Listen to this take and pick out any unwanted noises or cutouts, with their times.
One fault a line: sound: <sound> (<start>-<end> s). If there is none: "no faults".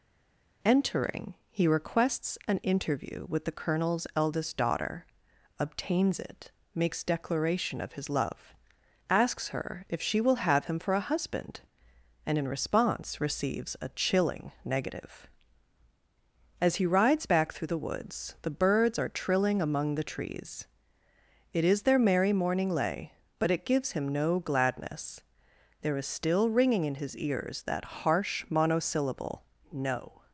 no faults